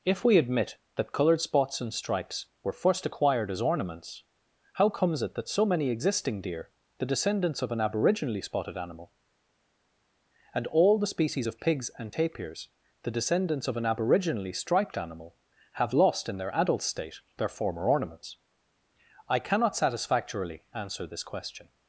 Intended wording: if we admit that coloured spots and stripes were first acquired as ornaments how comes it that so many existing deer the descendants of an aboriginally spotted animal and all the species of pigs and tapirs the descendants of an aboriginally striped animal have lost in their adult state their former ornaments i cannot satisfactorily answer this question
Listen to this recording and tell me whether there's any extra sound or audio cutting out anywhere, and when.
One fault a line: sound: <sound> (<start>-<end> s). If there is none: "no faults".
no faults